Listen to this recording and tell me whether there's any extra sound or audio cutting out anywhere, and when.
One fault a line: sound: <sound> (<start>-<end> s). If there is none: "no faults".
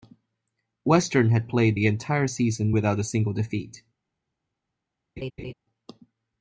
sound: laugh (5.2-5.5 s)